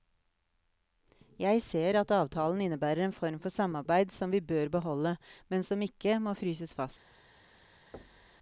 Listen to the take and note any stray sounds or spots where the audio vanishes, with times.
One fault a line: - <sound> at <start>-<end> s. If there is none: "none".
- thud at 7.9-8.4 s